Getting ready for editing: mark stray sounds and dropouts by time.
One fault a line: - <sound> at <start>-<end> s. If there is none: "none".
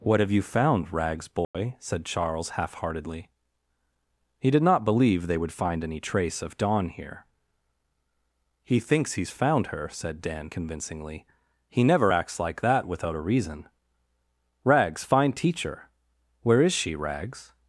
- dropout at 1.4-1.5 s